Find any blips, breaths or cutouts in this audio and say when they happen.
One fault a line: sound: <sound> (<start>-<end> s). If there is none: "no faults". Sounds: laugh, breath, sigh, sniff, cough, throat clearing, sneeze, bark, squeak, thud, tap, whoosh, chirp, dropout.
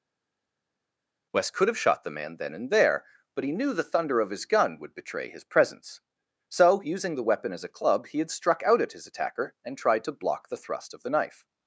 no faults